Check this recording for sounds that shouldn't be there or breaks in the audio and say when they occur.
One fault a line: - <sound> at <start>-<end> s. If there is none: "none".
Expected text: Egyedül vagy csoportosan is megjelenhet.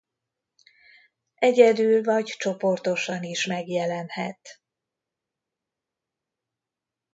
none